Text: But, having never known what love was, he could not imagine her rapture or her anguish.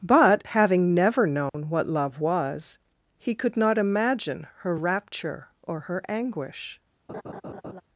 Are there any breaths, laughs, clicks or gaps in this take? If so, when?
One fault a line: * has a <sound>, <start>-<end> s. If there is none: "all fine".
* has a dropout, 1.5-1.5 s
* has a laugh, 7.1-7.8 s